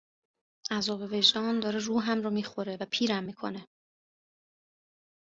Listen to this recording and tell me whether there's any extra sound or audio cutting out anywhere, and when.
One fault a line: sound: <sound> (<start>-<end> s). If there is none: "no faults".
no faults